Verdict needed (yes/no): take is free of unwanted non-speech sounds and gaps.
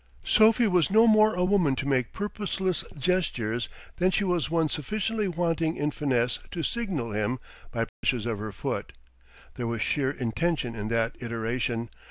no